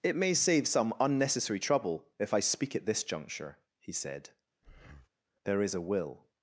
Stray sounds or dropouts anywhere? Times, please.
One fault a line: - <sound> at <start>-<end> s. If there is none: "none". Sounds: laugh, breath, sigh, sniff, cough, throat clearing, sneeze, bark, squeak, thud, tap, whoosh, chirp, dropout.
- breath at 4.6-5.1 s